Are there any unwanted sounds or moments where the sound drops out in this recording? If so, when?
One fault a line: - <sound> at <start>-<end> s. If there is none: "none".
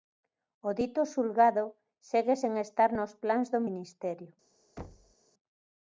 - thud at 4.8-5.1 s